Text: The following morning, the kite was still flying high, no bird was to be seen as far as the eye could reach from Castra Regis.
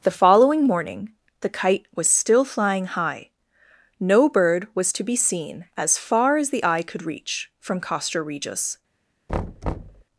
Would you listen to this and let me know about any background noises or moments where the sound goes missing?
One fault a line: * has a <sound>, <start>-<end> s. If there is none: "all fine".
* has a thud, 9.3-10.0 s